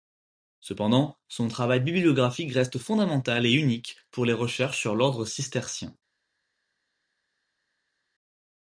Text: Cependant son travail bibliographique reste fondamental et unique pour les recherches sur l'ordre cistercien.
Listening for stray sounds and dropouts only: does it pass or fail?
pass